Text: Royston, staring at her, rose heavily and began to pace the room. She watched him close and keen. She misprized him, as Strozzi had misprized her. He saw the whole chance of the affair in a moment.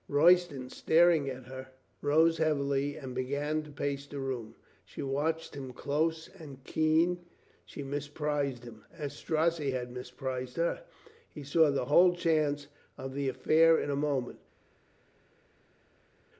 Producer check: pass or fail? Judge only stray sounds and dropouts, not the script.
pass